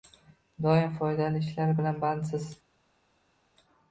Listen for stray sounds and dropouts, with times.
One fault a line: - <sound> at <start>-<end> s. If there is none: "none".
none